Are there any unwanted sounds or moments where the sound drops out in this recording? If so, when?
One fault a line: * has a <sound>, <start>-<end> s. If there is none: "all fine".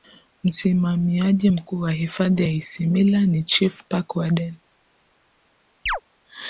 * has a chirp, 5.9-6.0 s